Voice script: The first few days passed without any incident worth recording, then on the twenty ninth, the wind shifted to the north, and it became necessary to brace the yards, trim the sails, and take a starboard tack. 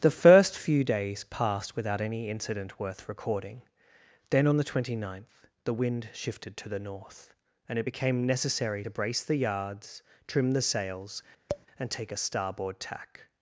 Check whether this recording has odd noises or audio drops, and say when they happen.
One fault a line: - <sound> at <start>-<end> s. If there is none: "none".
- tap at 11.5-11.7 s